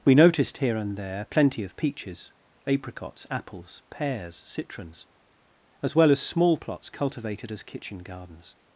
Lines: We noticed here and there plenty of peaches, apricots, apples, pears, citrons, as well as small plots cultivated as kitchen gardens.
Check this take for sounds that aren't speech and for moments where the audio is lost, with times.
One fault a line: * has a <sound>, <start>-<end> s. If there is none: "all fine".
all fine